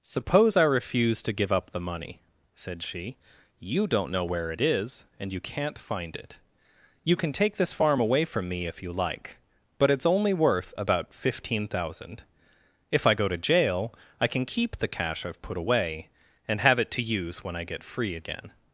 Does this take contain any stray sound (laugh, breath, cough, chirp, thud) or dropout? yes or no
no